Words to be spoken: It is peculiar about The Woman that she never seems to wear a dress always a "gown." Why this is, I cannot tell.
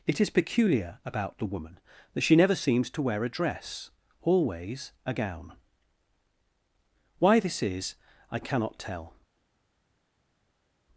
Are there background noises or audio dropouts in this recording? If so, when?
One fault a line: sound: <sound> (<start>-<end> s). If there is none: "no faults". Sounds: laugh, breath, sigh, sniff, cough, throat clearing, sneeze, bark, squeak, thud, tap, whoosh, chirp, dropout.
no faults